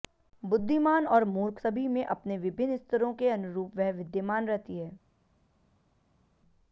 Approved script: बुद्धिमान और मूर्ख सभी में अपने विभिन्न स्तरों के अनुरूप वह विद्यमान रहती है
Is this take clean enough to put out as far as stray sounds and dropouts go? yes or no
yes